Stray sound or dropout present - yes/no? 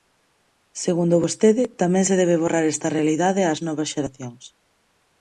no